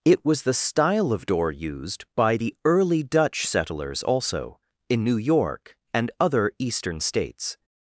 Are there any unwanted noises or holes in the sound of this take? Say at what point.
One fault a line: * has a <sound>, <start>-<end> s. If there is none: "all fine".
all fine